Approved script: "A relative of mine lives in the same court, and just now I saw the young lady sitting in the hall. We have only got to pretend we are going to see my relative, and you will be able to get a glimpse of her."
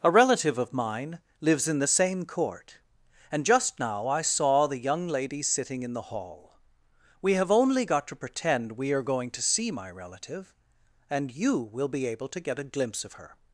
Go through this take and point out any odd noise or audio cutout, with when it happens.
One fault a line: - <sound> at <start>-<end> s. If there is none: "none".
none